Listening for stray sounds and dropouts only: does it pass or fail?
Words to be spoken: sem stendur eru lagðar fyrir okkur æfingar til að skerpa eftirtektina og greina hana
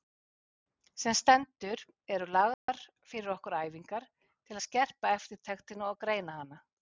fail